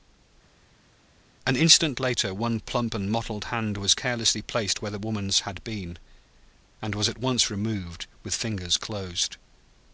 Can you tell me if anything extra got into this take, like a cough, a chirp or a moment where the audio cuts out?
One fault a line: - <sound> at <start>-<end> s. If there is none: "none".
none